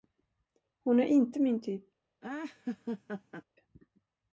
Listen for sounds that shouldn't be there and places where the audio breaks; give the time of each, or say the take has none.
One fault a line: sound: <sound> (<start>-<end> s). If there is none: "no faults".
sound: laugh (2.2-3.4 s)